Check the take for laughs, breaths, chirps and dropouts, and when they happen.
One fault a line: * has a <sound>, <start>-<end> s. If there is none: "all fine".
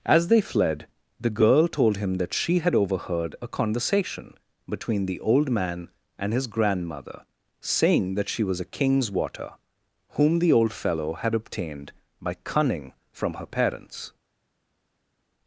all fine